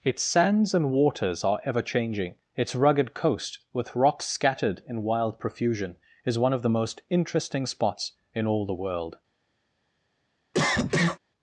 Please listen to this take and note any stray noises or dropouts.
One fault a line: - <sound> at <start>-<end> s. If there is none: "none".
- cough at 10.5-11.2 s